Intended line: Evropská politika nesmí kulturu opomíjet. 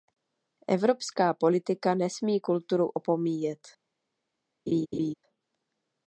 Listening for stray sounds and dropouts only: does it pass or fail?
fail